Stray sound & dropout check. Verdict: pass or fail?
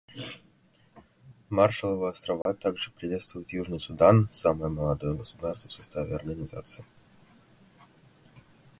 fail